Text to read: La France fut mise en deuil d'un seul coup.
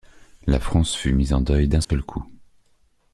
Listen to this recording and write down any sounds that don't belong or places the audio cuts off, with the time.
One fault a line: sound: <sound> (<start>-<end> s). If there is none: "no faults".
sound: dropout (1.8-1.9 s)